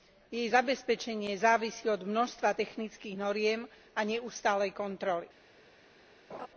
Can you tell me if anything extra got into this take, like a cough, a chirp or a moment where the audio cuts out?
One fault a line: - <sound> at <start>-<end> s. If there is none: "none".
- laugh at 6.3-6.5 s